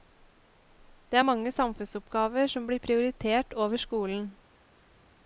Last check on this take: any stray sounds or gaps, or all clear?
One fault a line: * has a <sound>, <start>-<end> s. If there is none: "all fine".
all fine